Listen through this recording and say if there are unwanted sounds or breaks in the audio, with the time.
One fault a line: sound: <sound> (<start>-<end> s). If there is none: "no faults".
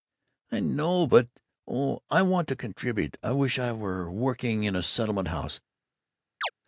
sound: chirp (6.4-6.5 s)